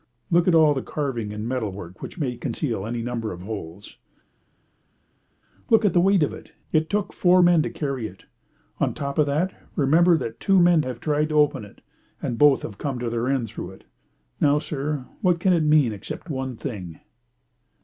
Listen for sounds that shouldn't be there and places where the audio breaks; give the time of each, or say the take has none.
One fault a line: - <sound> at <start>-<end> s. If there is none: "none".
none